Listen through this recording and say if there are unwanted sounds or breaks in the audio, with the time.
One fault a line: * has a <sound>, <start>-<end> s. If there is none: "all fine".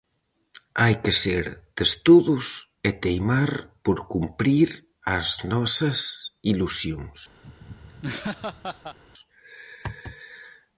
* has a laugh, 7.4-9.0 s